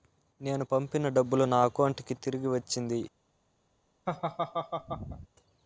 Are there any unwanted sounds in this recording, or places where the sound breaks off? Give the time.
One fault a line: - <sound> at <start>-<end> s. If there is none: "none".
- laugh at 4.1-5.3 s